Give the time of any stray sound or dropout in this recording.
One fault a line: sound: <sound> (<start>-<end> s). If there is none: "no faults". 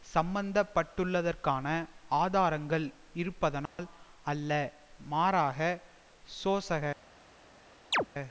sound: dropout (3.7-3.8 s)
sound: chirp (7.9-8.1 s)